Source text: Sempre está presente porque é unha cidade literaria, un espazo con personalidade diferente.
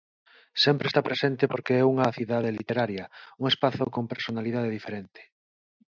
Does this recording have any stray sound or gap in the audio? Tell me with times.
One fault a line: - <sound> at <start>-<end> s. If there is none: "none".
none